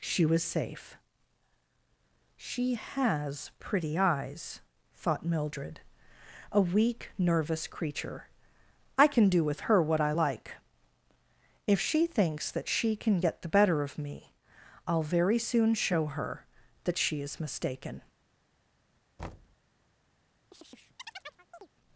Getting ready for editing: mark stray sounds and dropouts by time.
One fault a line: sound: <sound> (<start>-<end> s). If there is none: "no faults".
sound: thud (19.2-19.6 s)
sound: chirp (20.5-21.7 s)